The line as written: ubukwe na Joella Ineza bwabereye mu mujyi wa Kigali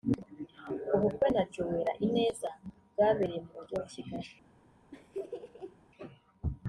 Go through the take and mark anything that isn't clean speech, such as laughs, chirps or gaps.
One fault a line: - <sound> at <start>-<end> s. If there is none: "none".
- laugh at 4.9-5.8 s